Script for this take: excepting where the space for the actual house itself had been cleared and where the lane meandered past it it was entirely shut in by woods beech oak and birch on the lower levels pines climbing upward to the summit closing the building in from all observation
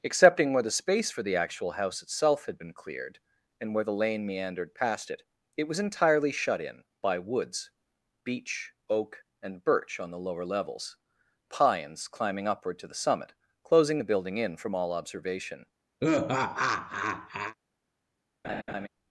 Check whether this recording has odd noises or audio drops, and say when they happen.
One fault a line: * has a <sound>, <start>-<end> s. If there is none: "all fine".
* has a laugh, 16.0-17.5 s
* has a laugh, 18.4-18.9 s